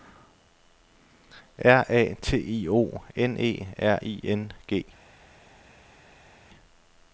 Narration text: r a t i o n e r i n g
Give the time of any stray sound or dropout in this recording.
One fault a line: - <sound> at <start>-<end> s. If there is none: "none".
none